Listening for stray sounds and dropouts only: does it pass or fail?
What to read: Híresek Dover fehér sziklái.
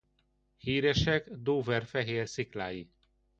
pass